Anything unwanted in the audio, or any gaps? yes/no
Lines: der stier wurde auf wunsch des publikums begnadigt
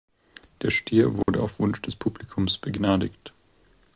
yes